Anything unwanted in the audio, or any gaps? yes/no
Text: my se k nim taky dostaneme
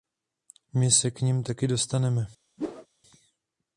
yes